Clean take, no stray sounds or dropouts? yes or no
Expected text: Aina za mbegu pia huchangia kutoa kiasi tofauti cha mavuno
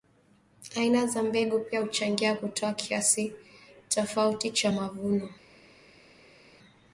yes